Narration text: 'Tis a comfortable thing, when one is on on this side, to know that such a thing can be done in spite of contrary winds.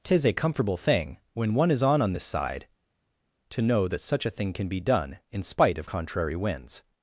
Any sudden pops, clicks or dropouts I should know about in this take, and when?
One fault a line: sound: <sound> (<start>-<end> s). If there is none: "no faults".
no faults